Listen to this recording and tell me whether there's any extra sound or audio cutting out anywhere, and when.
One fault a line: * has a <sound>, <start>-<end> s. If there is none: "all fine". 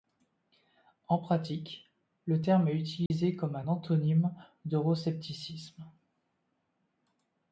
* has a dropout, 3.1-3.1 s